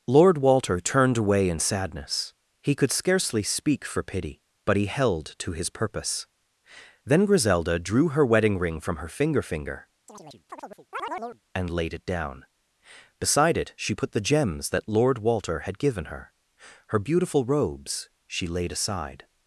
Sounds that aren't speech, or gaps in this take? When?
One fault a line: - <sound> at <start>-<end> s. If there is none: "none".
- chirp at 10.1-11.4 s